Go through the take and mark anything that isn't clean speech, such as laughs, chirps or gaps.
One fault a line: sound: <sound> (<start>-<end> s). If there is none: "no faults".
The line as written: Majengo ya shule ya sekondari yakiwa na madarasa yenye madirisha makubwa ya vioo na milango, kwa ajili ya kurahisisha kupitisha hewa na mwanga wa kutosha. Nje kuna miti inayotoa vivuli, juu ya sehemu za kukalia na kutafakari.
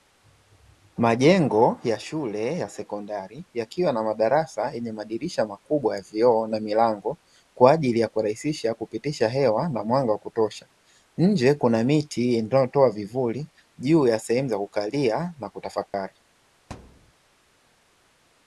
sound: dropout (15.9-15.9 s)
sound: thud (16.7-17.1 s)